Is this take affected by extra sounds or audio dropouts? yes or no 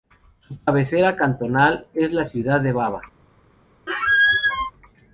yes